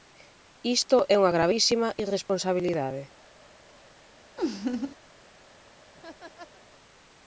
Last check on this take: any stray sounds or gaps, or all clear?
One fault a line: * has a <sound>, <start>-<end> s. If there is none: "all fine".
* has a laugh, 4.4-5.0 s
* has a laugh, 5.9-6.6 s